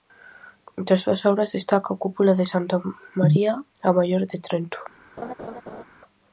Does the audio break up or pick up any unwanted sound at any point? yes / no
yes